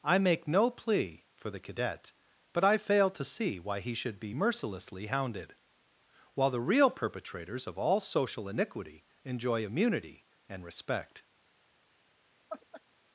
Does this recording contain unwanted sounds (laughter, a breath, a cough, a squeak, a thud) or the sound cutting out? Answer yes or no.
yes